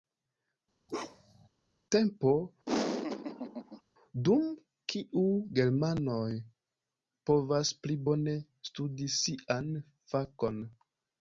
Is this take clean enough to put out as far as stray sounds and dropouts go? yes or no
no